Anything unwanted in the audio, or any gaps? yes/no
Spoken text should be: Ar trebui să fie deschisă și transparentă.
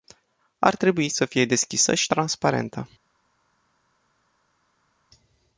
no